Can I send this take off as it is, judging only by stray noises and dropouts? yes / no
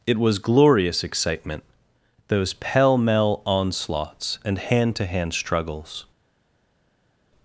yes